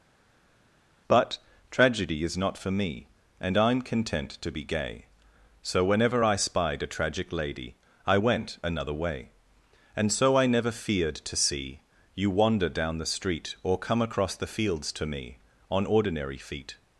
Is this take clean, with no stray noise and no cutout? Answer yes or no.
yes